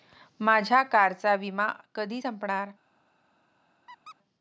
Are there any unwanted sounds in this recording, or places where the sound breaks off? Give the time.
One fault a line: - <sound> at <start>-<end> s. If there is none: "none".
- squeak at 3.9-4.2 s